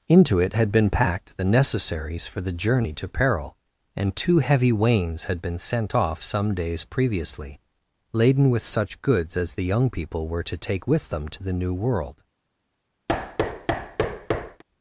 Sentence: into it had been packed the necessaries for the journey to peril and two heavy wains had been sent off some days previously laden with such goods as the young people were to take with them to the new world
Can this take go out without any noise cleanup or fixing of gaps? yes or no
no